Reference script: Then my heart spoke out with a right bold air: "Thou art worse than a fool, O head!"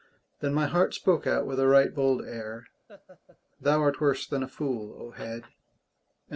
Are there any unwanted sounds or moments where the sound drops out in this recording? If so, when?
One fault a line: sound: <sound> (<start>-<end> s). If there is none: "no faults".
sound: laugh (2.9-3.4 s)